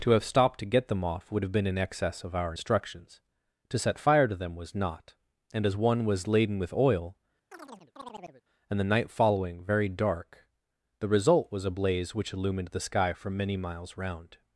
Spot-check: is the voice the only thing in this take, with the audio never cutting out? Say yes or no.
no